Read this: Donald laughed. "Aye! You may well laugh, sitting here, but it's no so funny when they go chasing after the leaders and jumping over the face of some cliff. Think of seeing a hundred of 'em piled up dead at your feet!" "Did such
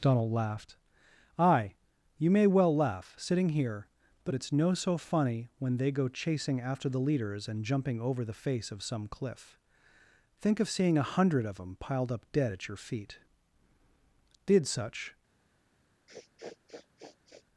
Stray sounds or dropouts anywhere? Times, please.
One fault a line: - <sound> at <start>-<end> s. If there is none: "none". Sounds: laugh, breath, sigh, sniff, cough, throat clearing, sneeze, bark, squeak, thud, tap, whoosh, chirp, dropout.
- sniff at 16.1-17.5 s